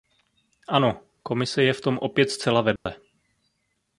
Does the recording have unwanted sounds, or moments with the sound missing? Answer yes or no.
yes